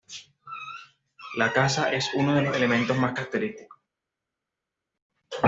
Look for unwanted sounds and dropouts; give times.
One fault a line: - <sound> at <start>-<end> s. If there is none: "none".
none